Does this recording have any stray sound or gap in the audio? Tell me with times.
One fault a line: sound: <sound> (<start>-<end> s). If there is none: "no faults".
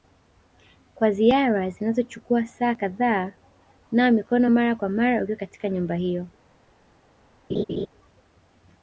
sound: laugh (7.5-7.9 s)